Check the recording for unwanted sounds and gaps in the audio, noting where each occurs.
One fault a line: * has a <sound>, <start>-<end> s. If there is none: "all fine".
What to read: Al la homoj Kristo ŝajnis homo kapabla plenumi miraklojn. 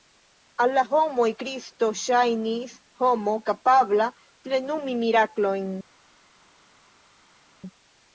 all fine